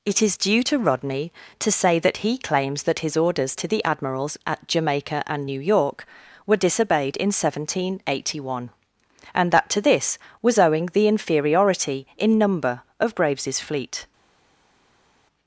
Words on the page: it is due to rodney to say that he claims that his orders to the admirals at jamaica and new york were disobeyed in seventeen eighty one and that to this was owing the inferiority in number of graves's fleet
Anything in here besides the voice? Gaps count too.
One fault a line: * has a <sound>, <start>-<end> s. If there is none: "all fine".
all fine